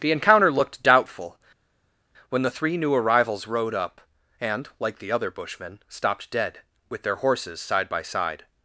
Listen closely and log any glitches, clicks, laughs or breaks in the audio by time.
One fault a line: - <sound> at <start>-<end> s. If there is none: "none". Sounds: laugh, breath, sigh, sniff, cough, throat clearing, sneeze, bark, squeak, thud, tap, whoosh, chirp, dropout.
none